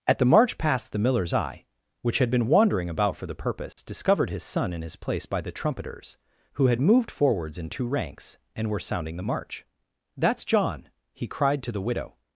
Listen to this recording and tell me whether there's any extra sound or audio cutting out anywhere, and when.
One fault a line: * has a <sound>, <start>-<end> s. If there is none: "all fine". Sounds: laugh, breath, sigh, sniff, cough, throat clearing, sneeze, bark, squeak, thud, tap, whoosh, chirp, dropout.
* has a dropout, 3.7-3.8 s